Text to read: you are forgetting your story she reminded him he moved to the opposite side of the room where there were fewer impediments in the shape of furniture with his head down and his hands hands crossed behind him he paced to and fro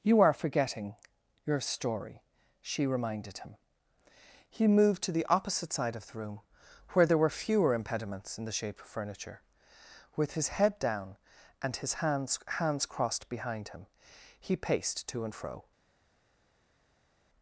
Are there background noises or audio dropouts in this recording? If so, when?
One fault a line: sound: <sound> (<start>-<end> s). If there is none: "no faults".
no faults